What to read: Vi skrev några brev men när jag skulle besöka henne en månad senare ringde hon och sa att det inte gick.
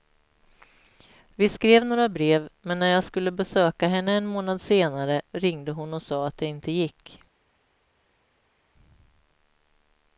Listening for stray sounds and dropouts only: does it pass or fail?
pass